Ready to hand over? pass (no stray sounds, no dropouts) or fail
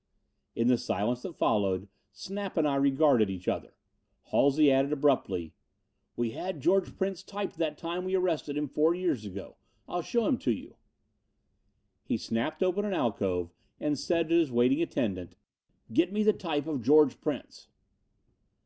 pass